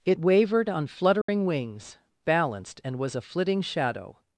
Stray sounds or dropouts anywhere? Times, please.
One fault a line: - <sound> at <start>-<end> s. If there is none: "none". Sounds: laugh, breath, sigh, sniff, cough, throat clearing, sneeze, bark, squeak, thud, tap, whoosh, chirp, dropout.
- dropout at 1.2-1.3 s